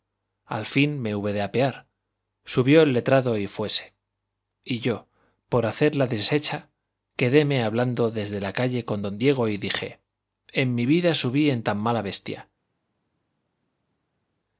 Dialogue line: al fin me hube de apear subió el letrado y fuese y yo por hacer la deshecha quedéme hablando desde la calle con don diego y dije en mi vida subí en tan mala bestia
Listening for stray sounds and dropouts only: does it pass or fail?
pass